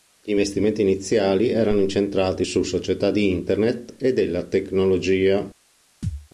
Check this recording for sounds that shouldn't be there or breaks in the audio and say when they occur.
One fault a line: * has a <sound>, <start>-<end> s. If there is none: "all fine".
* has a thud, 6.0-6.3 s